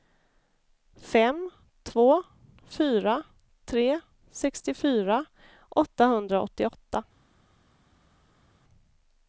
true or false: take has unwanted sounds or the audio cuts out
false